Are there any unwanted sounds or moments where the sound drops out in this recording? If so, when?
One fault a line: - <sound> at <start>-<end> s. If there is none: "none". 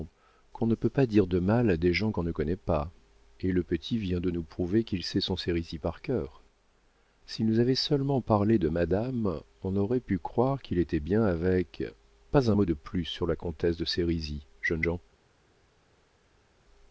none